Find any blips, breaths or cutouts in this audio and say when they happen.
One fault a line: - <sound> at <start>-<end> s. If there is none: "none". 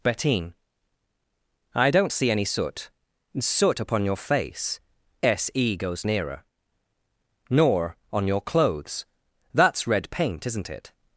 none